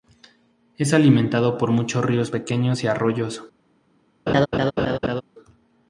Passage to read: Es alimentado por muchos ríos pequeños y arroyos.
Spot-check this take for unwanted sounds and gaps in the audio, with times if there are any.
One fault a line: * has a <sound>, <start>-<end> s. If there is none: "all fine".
* has a laugh, 4.3-5.2 s